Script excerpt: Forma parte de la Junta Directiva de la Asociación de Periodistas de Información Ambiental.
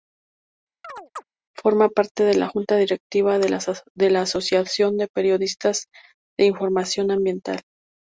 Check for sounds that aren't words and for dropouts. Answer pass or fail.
fail